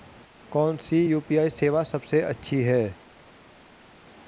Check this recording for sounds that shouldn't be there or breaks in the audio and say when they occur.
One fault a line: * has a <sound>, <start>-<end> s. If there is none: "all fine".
all fine